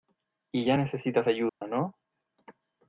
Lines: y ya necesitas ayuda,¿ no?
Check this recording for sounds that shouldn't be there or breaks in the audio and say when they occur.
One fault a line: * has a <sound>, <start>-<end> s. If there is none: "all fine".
* has a dropout, 1.5-1.6 s